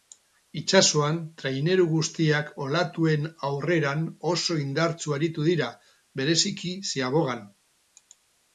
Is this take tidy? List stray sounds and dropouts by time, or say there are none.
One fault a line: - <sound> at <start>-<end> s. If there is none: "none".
none